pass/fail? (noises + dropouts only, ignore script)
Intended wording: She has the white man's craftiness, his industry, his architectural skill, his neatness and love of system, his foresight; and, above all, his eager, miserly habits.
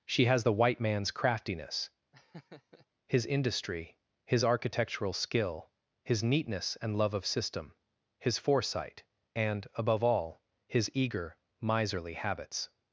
fail